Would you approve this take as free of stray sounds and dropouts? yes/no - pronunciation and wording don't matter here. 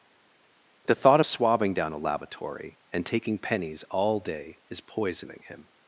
yes